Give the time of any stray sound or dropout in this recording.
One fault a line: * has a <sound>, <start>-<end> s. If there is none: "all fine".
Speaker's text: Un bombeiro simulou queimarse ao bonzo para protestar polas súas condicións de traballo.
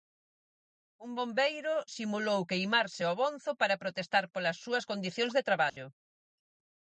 * has a dropout, 5.7-5.8 s